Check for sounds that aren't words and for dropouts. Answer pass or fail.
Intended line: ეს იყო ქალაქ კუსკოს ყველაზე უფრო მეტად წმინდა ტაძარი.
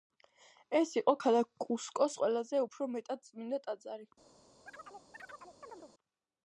fail